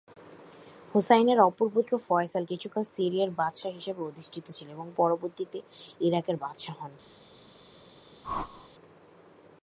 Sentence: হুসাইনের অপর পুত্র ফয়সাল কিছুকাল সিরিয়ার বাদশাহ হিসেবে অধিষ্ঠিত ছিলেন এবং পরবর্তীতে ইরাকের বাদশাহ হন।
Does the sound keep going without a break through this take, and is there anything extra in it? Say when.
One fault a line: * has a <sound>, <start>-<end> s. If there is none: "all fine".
* has a whoosh, 8.2-8.7 s